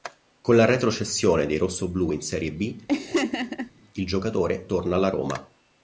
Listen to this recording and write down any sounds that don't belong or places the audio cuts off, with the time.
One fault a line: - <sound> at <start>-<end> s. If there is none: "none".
- laugh at 2.9-3.7 s